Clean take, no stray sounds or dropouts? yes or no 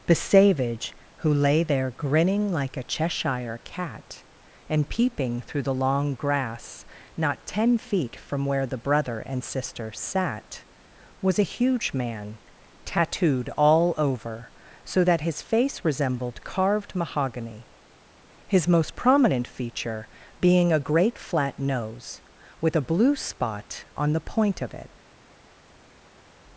yes